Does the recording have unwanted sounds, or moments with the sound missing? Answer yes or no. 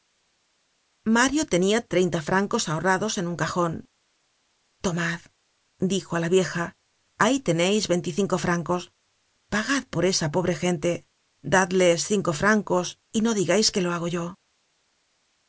no